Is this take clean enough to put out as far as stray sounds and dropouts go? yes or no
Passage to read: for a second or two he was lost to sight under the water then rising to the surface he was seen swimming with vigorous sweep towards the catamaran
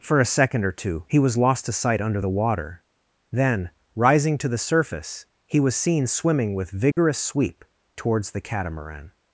no